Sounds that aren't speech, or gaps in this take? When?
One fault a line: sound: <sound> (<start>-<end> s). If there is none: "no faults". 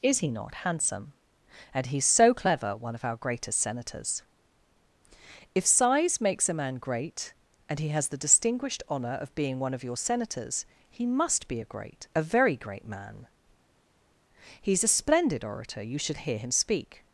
no faults